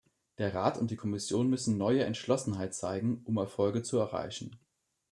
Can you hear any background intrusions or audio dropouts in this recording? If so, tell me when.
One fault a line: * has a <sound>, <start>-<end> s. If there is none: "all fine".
all fine